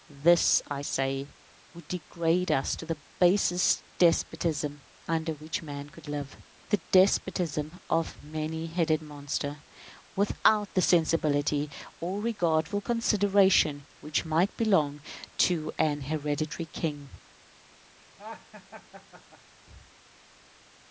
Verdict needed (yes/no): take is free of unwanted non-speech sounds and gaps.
no